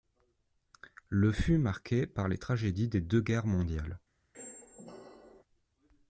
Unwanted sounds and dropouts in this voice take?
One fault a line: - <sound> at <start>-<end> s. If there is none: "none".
- squeak at 4.3-5.4 s